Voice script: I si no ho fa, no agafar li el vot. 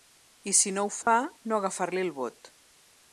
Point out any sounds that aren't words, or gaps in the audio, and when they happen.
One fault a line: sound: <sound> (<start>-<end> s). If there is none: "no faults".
sound: dropout (1.0-1.1 s)